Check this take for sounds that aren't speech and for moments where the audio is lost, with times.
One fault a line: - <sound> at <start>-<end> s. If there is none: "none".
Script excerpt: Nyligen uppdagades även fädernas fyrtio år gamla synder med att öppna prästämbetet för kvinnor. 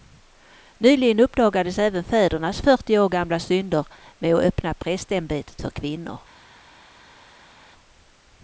none